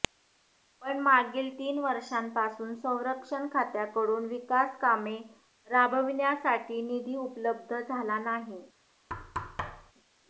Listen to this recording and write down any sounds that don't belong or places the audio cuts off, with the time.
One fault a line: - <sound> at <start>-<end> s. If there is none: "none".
- thud at 9.1-9.9 s